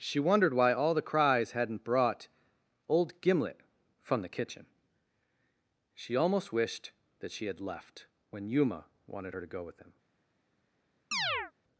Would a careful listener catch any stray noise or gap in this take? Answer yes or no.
yes